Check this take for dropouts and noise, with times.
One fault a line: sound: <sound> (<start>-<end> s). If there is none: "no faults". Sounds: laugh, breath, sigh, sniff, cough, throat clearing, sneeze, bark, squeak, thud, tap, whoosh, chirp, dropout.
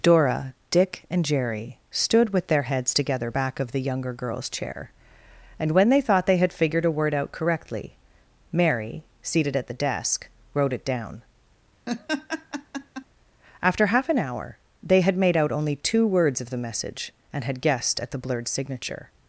sound: laugh (11.9-13.1 s)